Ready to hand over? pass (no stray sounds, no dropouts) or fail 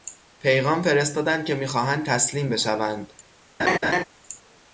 fail